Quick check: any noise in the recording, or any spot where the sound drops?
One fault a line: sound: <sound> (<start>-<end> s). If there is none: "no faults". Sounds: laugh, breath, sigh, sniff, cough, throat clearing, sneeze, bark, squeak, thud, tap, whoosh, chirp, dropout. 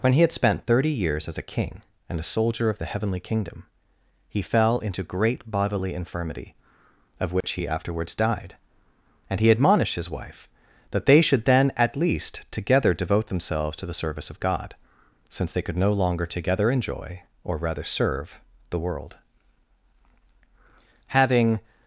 sound: dropout (7.4-7.4 s)